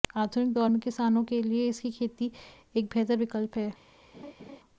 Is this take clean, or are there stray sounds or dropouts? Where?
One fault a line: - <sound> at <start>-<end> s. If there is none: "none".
- laugh at 4.1-4.6 s